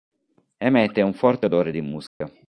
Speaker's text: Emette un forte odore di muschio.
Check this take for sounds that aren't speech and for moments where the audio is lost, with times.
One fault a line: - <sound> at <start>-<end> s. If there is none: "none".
- dropout at 2.1-2.2 s